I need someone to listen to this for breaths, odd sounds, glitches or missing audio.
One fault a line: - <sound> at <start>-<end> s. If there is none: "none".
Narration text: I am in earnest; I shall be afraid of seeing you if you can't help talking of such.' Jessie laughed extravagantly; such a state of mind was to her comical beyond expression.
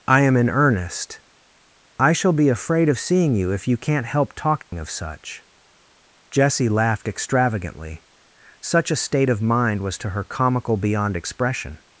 - dropout at 4.6-4.7 s